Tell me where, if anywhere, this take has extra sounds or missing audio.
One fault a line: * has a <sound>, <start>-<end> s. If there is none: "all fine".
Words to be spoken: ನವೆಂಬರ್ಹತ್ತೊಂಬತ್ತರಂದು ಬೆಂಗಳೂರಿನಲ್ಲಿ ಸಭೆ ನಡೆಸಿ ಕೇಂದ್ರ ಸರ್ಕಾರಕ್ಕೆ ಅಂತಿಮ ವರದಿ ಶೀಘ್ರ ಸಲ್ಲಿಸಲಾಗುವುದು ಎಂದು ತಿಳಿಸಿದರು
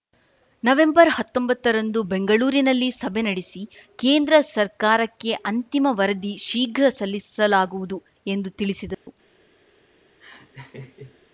* has a dropout, 8.9-9.1 s
* has a laugh, 10.2-11.2 s